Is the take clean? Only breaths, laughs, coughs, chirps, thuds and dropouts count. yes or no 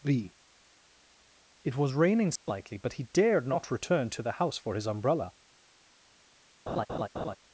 no